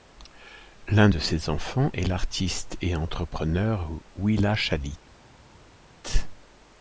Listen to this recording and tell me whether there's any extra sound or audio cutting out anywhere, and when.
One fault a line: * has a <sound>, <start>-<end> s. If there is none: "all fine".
all fine